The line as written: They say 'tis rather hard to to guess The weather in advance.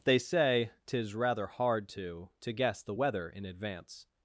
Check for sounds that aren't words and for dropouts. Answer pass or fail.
pass